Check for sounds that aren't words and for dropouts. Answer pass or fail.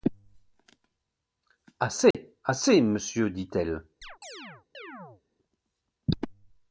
fail